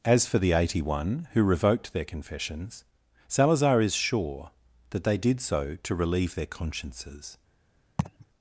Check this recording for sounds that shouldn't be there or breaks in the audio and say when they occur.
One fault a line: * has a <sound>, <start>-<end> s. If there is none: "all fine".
* has a laugh, 8.0-8.3 s